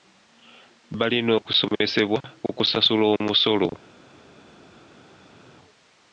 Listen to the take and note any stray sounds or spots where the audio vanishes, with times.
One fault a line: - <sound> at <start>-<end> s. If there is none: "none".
none